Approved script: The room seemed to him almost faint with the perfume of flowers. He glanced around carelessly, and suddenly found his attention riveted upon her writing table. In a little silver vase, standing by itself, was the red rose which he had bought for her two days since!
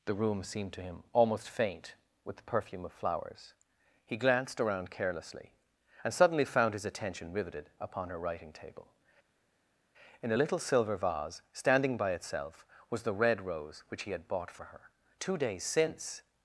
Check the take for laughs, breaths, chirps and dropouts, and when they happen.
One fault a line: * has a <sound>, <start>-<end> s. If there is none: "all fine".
all fine